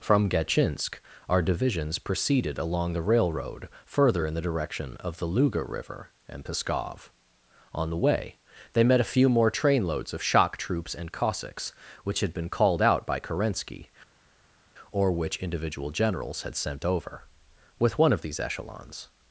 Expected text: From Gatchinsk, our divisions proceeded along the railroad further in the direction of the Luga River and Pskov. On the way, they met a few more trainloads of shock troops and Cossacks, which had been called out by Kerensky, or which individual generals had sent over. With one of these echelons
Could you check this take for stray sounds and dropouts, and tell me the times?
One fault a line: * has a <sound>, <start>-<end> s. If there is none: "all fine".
all fine